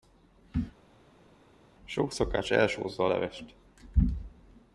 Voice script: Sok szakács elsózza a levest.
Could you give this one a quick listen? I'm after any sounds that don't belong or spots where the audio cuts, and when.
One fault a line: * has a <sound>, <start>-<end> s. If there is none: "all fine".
all fine